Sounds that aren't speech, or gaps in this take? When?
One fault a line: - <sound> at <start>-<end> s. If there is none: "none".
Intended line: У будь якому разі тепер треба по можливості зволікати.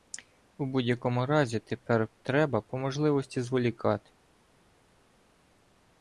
none